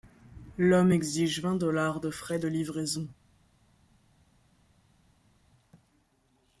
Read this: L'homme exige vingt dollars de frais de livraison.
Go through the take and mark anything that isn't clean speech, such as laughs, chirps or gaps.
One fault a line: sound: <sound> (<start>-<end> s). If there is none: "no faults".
no faults